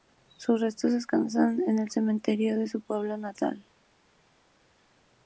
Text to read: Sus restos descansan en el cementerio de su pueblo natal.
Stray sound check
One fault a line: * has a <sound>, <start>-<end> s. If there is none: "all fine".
all fine